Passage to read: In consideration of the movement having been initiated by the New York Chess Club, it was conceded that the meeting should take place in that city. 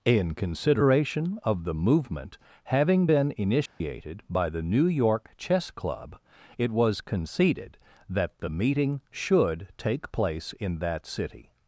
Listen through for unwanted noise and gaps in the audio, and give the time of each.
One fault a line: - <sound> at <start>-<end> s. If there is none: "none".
- dropout at 3.7-3.8 s